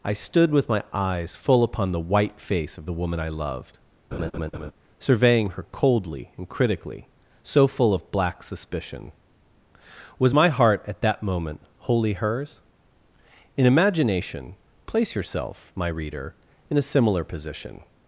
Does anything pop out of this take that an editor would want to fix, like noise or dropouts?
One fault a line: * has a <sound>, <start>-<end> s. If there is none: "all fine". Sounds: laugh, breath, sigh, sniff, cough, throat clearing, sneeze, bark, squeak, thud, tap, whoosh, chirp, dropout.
* has a laugh, 4.1-4.7 s